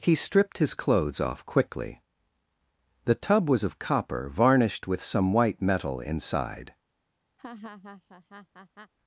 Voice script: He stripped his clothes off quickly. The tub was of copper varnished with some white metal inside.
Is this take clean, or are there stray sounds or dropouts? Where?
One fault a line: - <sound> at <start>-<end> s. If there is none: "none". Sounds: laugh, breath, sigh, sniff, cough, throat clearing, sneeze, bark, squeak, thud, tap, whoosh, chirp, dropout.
- laugh at 7.4-8.9 s